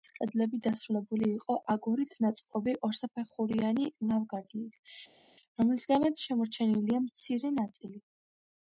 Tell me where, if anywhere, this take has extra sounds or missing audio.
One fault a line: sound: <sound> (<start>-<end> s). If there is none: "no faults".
no faults